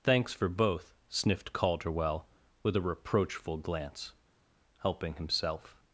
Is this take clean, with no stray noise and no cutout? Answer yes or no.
yes